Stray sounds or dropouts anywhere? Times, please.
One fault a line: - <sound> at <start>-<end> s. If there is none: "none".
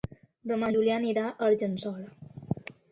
none